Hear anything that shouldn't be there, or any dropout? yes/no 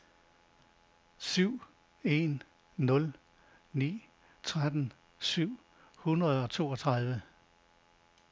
no